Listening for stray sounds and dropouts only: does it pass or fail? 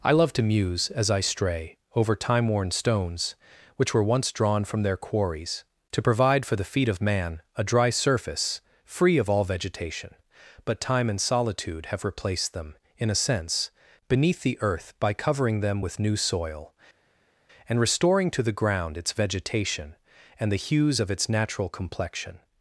pass